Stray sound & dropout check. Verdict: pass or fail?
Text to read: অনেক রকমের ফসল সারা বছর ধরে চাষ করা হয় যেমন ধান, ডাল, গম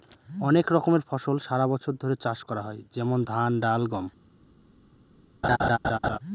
fail